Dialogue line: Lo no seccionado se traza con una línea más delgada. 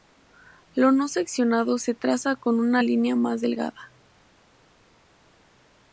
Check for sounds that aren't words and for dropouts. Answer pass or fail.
pass